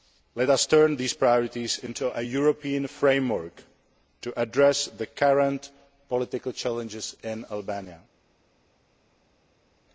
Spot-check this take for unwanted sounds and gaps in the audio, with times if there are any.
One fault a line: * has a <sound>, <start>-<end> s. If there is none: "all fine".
all fine